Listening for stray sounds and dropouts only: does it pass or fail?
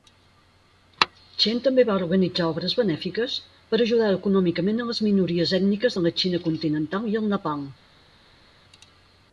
pass